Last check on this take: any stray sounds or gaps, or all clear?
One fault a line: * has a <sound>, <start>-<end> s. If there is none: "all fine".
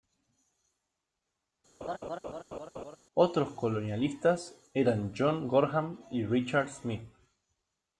* has a laugh, 1.8-3.0 s